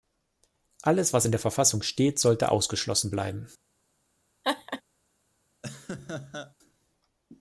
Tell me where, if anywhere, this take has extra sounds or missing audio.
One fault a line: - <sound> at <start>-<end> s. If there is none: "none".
- laugh at 4.4-4.8 s
- laugh at 5.6-6.5 s